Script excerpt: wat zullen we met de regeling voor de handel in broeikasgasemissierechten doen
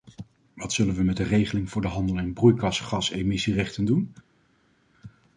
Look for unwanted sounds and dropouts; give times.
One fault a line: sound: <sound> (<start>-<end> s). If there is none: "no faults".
no faults